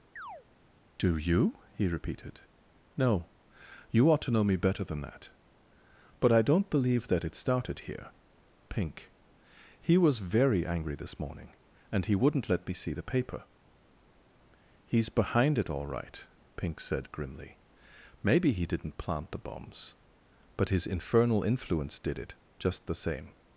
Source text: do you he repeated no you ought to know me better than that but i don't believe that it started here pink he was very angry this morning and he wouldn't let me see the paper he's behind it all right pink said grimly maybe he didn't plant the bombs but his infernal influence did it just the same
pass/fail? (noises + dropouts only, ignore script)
fail